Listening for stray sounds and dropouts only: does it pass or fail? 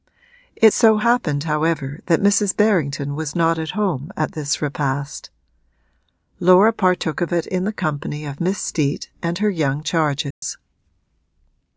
fail